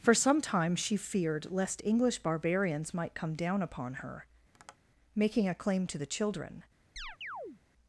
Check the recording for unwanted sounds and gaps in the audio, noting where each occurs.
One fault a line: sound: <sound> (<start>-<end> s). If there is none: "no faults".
sound: tap (4.5-4.8 s)
sound: chirp (7.0-7.6 s)